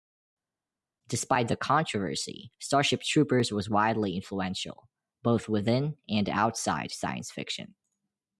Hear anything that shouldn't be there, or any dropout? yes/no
no